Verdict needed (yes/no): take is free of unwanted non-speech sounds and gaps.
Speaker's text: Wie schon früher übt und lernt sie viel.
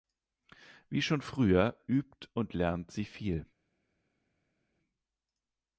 yes